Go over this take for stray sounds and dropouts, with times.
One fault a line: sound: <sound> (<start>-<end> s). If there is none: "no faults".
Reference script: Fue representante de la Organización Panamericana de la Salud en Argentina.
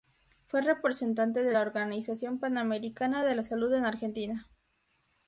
no faults